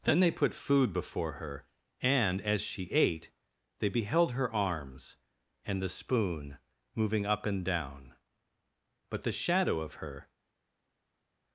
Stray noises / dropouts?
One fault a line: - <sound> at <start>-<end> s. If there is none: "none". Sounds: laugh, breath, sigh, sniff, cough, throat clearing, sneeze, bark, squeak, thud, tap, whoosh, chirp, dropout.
none